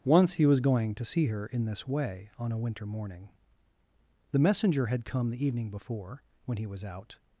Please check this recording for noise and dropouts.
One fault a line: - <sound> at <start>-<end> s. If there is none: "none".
none